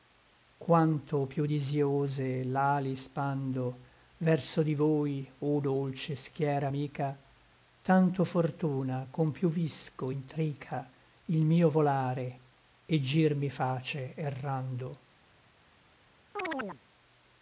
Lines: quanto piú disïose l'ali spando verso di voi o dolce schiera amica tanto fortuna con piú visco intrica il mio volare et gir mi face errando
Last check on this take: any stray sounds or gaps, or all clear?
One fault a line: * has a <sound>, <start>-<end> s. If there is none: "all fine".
* has a chirp, 16.4-16.8 s